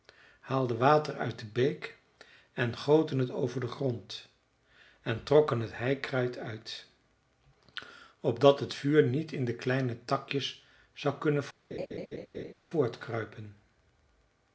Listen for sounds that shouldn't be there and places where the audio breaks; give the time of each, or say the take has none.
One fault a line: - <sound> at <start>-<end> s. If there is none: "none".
- laugh at 11.7-12.5 s